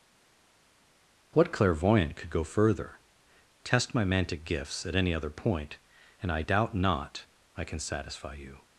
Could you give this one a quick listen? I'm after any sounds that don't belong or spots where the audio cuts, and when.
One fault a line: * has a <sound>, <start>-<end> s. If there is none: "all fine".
all fine